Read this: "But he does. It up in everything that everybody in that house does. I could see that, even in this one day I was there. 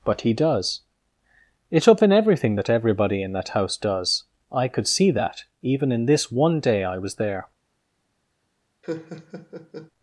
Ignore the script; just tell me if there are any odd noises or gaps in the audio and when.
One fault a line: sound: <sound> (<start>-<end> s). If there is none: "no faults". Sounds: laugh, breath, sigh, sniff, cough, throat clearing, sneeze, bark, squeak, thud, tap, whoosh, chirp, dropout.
sound: laugh (8.8-9.9 s)